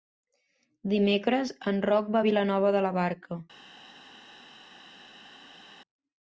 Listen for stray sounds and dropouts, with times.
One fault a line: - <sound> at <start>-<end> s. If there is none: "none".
none